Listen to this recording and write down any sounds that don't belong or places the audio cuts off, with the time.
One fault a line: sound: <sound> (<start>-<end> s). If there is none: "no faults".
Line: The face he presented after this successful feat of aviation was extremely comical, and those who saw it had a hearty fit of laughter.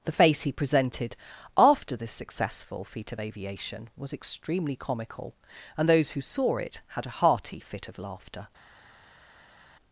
no faults